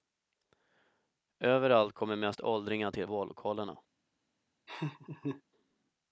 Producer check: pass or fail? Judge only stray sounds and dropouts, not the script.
fail